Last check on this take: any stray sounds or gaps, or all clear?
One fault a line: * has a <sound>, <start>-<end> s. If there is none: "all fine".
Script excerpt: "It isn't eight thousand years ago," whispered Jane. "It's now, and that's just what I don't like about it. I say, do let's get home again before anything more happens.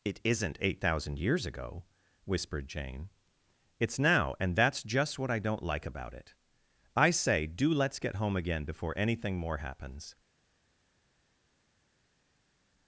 all fine